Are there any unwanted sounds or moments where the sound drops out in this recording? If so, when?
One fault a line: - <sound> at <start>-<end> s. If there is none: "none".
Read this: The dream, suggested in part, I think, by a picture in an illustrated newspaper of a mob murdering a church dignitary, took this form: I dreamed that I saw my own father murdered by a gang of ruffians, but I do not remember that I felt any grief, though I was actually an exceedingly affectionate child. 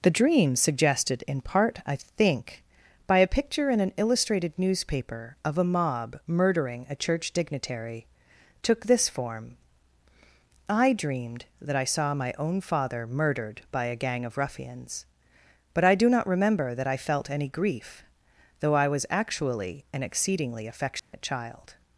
- dropout at 21.0-21.1 s